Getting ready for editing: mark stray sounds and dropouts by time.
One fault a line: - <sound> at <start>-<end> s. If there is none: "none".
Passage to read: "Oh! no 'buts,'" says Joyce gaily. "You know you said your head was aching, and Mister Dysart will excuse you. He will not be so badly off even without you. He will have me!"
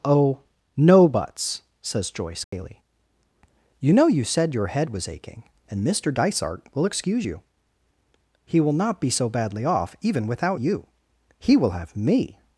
- dropout at 2.4-2.5 s